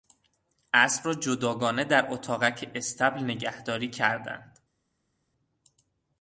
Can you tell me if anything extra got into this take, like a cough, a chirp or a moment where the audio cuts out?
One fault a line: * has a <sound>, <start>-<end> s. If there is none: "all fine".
all fine